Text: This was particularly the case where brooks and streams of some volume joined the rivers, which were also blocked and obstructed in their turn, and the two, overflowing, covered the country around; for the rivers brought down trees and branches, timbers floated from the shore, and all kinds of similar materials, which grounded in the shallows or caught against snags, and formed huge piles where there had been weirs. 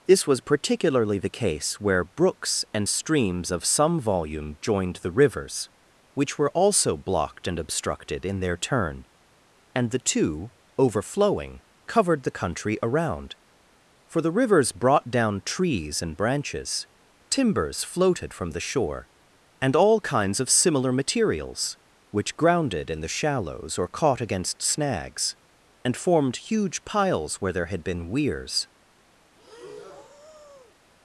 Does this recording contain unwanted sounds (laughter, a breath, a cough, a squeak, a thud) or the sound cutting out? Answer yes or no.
yes